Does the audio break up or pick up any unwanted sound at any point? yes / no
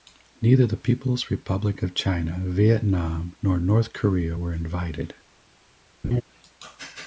yes